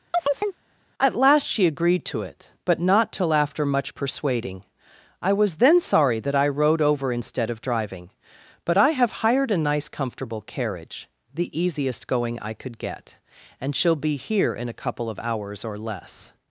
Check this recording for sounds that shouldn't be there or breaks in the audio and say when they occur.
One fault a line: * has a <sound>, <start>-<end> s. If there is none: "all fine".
* has a chirp, 0.1-0.6 s